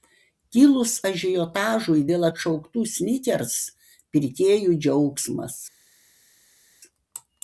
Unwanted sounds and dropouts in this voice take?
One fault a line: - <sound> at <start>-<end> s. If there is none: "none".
none